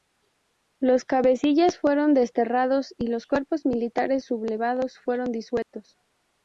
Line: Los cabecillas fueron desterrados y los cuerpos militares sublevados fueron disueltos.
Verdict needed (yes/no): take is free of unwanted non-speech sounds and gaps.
no